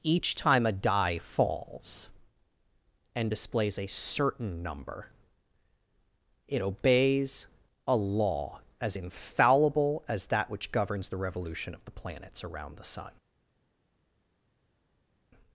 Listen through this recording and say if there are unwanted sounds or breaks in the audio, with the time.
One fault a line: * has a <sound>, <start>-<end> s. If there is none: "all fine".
all fine